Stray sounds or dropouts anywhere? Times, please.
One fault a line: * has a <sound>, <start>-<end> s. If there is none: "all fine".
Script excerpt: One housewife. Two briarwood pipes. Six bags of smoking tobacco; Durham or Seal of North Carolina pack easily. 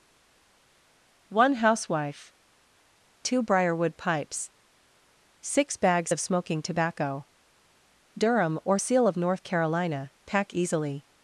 all fine